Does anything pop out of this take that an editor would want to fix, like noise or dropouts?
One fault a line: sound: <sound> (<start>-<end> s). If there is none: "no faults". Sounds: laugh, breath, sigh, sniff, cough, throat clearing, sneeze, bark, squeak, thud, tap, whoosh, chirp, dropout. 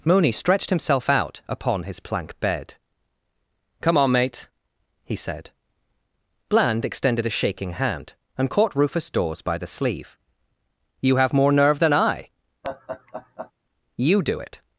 sound: laugh (12.6-13.5 s)